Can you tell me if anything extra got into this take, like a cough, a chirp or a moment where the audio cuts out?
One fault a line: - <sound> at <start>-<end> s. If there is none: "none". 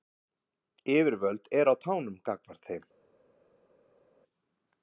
none